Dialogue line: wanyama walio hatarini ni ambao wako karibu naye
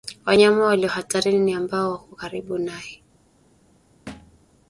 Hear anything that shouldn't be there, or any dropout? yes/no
yes